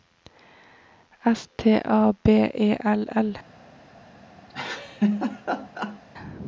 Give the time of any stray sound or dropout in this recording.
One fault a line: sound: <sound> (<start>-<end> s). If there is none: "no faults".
sound: laugh (4.5-6.0 s)